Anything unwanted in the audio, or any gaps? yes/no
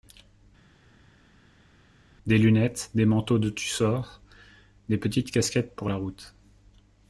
no